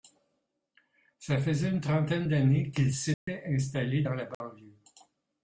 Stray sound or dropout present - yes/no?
yes